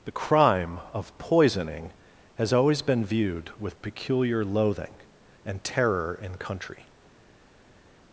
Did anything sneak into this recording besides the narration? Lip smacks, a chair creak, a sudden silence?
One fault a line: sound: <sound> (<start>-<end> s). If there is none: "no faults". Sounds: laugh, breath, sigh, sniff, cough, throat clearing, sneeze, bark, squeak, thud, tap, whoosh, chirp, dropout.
no faults